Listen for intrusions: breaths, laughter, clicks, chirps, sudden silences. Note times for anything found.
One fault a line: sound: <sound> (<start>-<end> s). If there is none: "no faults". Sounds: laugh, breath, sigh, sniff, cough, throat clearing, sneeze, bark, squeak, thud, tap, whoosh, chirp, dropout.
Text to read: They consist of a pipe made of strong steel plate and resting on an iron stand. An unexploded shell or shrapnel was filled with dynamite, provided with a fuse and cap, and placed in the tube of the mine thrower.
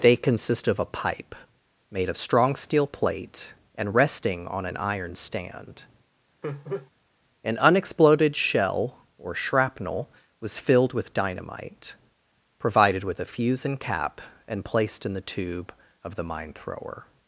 sound: laugh (6.4-6.9 s)